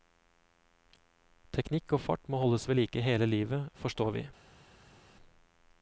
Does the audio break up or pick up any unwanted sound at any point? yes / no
no